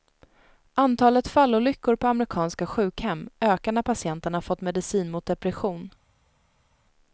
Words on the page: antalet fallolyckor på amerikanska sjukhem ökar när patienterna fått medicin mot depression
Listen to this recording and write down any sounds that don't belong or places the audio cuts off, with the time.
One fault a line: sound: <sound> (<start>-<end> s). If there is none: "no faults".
no faults